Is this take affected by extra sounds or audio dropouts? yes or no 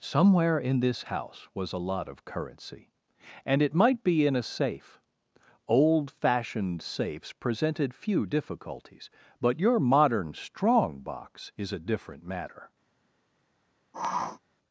yes